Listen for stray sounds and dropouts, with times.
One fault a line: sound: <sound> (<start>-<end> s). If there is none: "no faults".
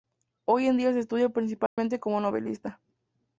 sound: dropout (1.7-1.8 s)